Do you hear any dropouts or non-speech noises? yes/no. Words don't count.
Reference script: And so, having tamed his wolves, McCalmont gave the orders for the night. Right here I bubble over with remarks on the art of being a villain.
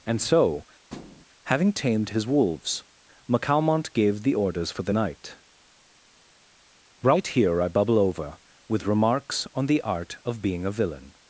yes